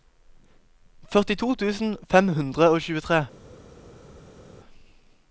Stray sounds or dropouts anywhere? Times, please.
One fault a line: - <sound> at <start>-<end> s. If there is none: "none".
none